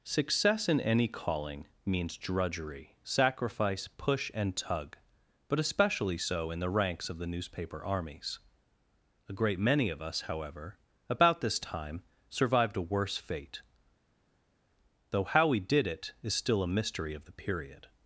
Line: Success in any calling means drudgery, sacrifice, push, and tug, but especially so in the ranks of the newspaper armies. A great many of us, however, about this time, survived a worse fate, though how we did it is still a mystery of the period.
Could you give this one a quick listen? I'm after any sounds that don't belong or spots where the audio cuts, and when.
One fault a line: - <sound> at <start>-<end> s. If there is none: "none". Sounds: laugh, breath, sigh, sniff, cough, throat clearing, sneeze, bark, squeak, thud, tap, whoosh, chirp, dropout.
none